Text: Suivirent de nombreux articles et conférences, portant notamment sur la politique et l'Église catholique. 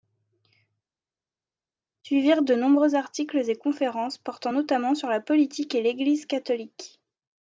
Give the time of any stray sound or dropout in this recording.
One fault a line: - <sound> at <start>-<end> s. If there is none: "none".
none